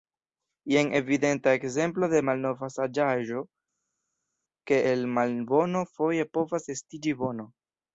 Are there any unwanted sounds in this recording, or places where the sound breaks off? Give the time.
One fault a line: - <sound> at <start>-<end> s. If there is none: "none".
none